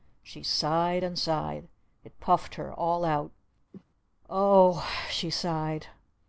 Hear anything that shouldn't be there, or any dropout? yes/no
yes